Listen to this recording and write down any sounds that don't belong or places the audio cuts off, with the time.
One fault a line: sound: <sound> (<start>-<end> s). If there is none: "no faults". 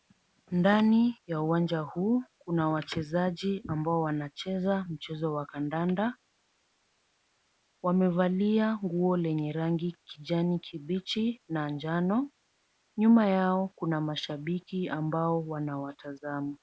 no faults